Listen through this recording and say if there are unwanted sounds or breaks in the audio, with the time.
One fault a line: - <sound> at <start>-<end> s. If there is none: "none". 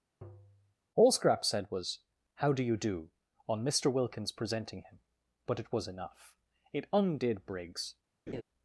- tap at 0.2-0.8 s
- laugh at 8.3-8.4 s